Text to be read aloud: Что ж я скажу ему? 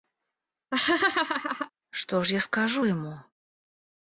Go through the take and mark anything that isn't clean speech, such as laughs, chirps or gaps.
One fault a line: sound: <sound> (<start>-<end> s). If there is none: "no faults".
sound: laugh (0.7-1.7 s)